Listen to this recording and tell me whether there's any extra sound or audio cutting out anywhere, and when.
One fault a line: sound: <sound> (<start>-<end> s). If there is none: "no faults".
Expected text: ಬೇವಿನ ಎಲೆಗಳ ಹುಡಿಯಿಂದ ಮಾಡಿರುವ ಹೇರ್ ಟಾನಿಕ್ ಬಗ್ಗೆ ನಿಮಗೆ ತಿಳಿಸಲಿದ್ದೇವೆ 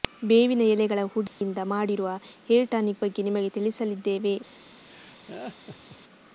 sound: dropout (1.3-1.4 s)
sound: laugh (4.9-6.0 s)